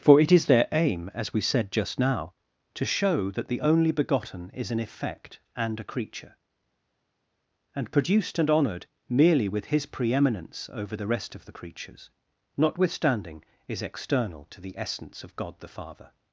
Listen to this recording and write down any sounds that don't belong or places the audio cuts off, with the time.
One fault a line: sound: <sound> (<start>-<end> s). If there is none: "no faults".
no faults